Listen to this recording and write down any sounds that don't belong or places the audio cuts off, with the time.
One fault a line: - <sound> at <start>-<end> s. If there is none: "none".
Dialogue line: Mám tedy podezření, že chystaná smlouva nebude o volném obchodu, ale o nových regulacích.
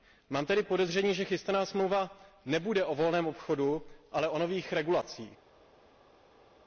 none